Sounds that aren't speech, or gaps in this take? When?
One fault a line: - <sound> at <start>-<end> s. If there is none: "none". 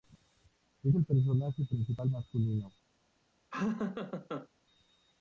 - laugh at 3.5-4.5 s